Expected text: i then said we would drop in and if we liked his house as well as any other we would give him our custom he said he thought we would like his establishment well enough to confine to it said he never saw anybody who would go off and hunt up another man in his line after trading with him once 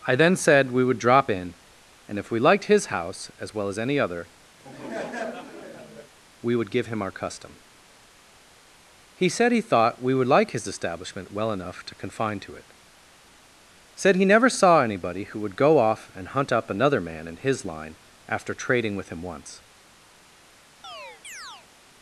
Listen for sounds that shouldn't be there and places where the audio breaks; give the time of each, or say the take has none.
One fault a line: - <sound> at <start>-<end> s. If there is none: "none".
- laugh at 4.6-6.1 s
- chirp at 20.8-21.7 s